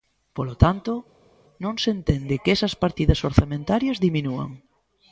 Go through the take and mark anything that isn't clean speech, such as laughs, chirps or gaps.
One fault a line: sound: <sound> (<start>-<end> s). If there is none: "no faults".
no faults